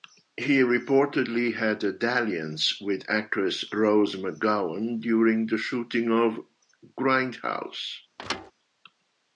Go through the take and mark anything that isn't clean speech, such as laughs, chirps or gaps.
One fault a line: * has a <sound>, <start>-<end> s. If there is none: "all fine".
* has a thud, 8.2-8.5 s